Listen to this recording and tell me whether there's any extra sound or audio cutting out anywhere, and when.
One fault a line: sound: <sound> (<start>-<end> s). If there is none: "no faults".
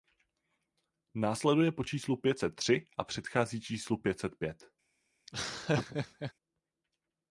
sound: laugh (5.3-6.3 s)